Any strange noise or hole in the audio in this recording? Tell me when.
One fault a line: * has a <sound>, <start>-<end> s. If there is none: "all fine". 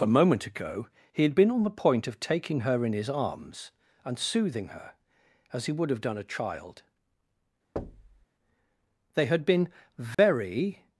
* has a thud, 7.8-8.3 s
* has a dropout, 10.1-10.2 s